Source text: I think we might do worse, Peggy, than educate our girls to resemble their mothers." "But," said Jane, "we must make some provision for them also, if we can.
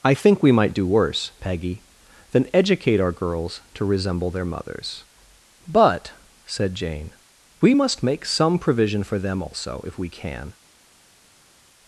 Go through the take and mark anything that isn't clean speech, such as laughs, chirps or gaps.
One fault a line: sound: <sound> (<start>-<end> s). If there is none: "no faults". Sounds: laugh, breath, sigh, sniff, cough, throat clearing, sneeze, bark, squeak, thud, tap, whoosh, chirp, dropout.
no faults